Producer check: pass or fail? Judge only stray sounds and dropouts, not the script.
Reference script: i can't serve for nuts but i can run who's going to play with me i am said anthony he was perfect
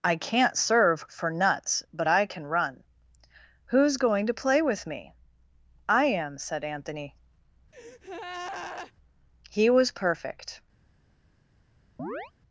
fail